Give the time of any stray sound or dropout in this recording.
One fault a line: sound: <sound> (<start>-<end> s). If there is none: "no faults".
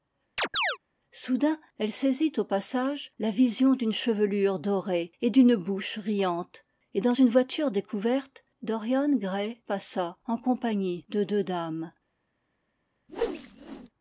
sound: chirp (0.4-0.8 s)
sound: whoosh (13.1-13.9 s)